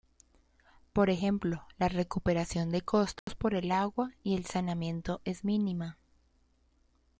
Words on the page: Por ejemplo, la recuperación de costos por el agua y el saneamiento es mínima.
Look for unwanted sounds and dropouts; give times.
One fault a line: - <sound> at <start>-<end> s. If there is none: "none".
- dropout at 3.2-3.3 s